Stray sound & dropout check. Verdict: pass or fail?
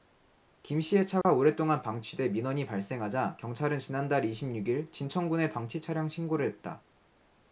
fail